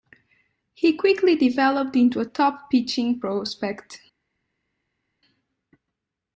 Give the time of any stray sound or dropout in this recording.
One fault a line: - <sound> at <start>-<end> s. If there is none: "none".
none